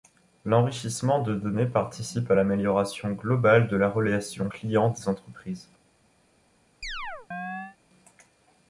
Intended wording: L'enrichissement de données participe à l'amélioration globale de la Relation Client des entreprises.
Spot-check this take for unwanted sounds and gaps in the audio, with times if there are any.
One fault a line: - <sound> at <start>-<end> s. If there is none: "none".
- chirp at 6.8-7.8 s